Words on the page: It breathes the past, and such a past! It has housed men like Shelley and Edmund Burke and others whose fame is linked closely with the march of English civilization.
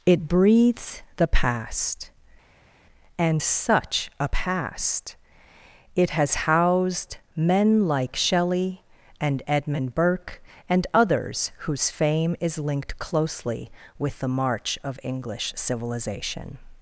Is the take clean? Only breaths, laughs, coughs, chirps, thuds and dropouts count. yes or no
yes